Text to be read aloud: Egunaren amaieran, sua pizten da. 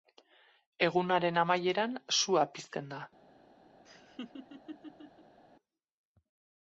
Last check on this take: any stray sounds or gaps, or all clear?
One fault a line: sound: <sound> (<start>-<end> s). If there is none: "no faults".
sound: laugh (3.8-5.4 s)